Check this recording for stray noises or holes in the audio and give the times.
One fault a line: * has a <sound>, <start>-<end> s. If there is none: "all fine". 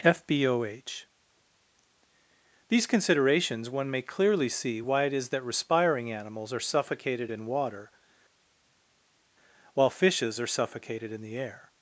all fine